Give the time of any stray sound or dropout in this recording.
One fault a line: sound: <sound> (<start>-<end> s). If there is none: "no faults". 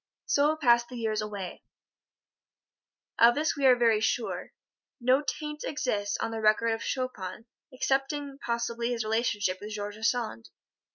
no faults